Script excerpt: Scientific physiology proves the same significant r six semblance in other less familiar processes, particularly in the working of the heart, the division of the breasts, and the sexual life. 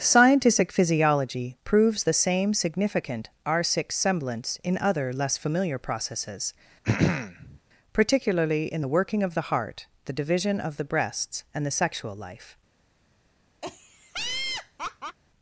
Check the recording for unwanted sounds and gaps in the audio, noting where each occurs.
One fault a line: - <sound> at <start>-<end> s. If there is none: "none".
- throat clearing at 6.8-7.6 s
- laugh at 13.6-15.2 s